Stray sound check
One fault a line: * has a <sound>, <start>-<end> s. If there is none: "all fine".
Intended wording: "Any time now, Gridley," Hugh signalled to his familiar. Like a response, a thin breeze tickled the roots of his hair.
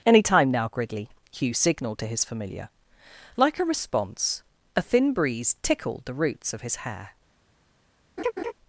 * has a laugh, 8.2-8.5 s